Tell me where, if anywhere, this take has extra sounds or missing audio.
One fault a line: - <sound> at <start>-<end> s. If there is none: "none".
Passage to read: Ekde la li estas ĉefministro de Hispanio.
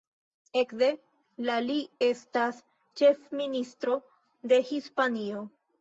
none